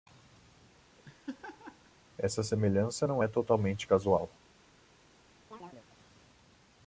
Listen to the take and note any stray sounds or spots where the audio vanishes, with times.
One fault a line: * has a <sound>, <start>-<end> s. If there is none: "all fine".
* has a laugh, 1.0-1.9 s
* has a chirp, 5.5-5.9 s